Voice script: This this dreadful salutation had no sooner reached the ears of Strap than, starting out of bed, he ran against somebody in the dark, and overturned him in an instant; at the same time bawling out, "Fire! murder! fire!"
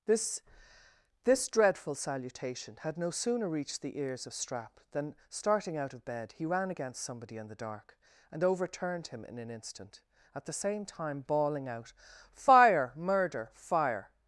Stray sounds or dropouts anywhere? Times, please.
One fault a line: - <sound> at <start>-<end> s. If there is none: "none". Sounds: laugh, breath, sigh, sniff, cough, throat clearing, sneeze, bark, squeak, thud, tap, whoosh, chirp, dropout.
none